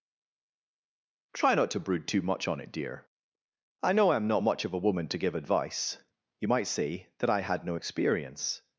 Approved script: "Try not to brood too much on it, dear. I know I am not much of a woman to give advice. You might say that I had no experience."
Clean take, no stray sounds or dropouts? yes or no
yes